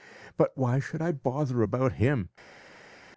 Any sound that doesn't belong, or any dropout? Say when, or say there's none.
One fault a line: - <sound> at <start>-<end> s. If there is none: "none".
none